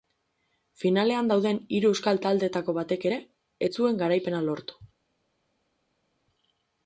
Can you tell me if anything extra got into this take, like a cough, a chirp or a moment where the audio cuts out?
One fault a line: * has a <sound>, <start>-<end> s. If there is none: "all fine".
all fine